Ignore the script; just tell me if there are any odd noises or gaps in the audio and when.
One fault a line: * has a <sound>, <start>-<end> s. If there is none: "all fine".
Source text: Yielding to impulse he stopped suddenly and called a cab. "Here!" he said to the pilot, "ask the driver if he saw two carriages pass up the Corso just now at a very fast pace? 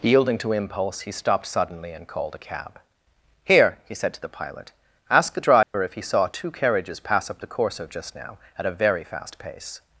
* has a dropout, 5.6-5.7 s